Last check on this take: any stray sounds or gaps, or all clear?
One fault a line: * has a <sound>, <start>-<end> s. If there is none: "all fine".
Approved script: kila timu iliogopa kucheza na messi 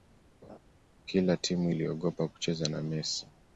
* has a laugh, 0.4-0.6 s